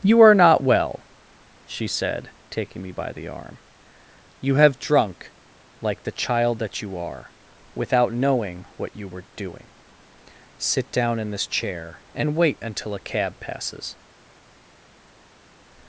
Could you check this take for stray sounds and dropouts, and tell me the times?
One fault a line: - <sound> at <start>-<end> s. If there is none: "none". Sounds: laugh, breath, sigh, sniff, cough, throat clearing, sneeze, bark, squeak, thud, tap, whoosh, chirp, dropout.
none